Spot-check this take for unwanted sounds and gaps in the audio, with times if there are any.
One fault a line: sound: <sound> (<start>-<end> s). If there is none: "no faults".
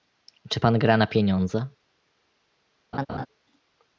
sound: laugh (2.9-3.3 s)